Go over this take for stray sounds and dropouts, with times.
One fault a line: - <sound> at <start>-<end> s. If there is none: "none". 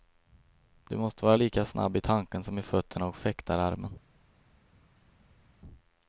none